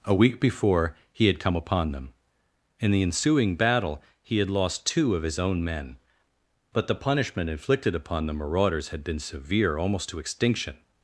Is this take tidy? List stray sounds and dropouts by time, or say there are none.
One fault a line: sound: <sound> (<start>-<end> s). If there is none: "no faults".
no faults